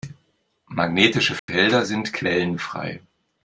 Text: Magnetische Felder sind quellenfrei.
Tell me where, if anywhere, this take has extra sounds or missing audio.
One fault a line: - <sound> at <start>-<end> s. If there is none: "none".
- dropout at 1.4-1.5 s